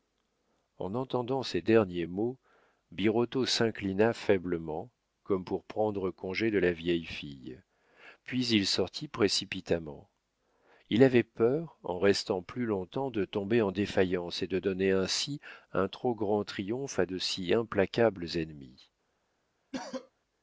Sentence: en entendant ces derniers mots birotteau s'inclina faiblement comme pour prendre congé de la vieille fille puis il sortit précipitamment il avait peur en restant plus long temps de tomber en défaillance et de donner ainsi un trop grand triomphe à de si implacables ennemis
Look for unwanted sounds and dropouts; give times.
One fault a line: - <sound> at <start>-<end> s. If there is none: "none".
- cough at 19.7-20.1 s